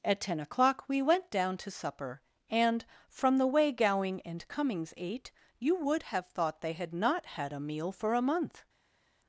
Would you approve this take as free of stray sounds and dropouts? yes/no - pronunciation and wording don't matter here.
yes